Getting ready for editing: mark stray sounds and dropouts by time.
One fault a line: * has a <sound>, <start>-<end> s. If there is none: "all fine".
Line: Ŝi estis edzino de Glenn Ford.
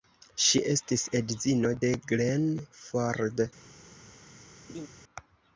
* has a laugh, 4.7-4.9 s